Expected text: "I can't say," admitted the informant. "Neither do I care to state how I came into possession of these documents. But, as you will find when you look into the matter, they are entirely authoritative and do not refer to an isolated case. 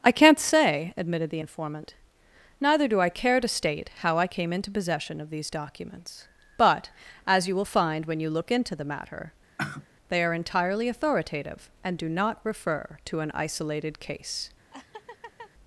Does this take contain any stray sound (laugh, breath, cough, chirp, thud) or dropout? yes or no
yes